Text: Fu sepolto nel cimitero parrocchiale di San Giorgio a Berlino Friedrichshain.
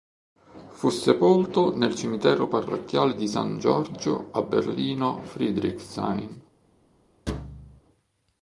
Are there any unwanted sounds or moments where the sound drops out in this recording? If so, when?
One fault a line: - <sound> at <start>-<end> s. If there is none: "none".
- thud at 7.3-7.8 s